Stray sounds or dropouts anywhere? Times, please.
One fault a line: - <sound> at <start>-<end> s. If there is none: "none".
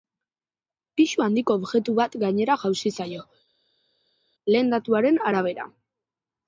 none